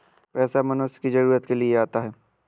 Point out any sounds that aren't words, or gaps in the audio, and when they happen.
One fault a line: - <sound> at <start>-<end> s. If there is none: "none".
none